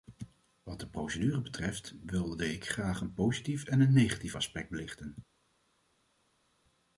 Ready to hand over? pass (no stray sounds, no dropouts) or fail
pass